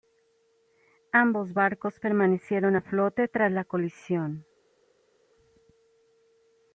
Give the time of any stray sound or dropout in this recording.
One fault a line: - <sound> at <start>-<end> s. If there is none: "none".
none